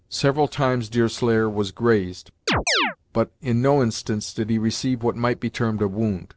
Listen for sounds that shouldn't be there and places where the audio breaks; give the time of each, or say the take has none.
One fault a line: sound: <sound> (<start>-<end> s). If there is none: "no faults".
sound: chirp (2.5-3.0 s)